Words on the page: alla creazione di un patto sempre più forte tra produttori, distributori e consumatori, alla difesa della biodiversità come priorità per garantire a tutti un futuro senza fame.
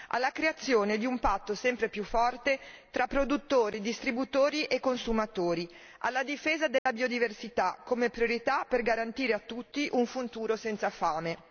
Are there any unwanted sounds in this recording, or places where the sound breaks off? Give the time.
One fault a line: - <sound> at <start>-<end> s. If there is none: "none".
- dropout at 6.8-6.9 s